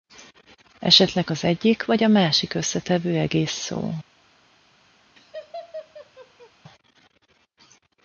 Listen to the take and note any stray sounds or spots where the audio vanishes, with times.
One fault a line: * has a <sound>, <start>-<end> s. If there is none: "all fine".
* has a laugh, 5.2-6.5 s